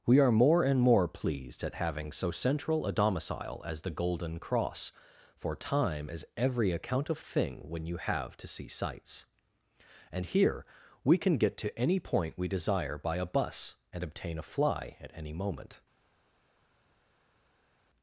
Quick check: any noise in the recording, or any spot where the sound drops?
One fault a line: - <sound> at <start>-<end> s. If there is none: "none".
none